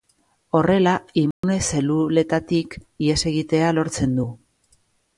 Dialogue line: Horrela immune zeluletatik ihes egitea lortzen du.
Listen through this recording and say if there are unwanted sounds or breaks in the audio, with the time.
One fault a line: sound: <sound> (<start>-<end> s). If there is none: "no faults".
sound: dropout (1.3-1.4 s)